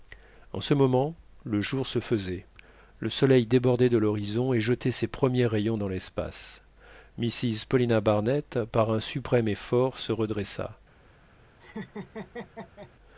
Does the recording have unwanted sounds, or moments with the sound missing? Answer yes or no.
yes